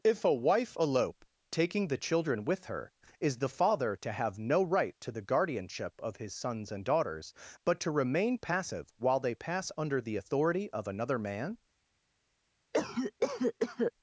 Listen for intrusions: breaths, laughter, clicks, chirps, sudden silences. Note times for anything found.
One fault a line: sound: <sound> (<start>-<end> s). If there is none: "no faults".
sound: cough (12.7-13.9 s)